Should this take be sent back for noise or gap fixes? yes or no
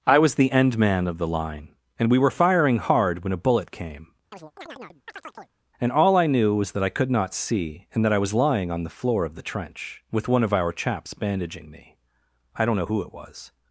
yes